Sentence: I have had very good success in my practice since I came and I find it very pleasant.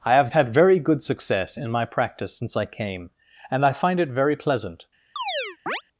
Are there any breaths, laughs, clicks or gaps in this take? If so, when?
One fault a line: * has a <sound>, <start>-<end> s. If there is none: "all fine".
* has a chirp, 5.2-5.8 s